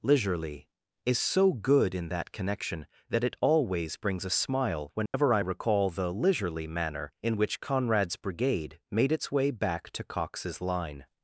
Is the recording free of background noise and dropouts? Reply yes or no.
no